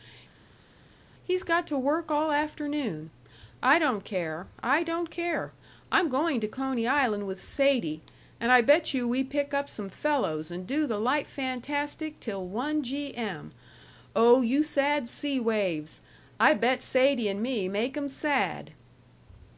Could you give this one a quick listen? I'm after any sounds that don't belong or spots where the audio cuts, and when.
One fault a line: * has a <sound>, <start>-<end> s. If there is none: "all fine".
all fine